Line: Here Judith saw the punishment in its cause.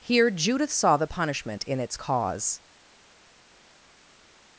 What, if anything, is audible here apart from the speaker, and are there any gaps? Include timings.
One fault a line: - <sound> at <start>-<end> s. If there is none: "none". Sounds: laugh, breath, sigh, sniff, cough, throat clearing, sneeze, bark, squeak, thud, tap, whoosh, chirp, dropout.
none